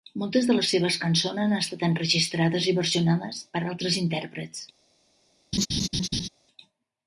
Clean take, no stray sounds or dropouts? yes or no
no